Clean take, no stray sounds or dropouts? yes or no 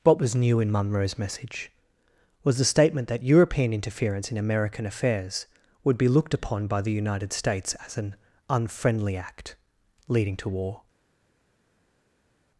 yes